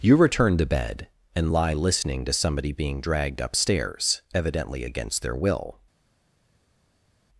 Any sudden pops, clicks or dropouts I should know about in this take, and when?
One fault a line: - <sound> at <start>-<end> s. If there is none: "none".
none